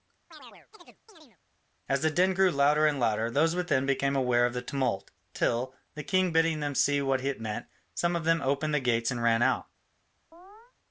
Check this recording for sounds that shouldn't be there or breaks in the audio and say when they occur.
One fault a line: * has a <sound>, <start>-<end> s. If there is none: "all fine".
* has a chirp, 0.3-1.4 s
* has a chirp, 10.3-10.7 s